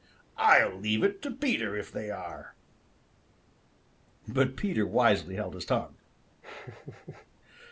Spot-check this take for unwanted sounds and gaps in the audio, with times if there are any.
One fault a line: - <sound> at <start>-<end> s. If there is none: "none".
- laugh at 6.4-7.3 s